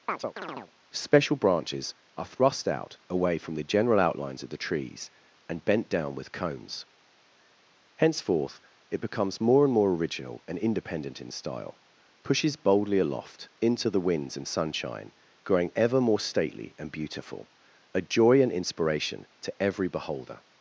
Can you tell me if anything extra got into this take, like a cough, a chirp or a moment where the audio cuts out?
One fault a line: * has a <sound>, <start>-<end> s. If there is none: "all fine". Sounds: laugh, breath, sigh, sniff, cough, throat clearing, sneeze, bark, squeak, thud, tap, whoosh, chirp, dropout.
* has a chirp, 0.1-0.7 s